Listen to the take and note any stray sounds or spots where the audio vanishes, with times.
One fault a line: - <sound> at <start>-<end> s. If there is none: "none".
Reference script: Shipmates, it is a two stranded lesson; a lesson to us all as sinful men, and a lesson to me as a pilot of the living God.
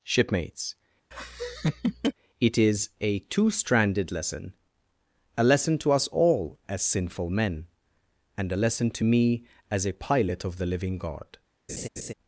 - laugh at 1.1-2.1 s
- laugh at 11.7-12.1 s